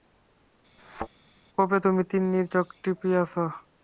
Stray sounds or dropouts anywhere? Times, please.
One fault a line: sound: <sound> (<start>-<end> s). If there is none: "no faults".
sound: thud (0.8-1.1 s)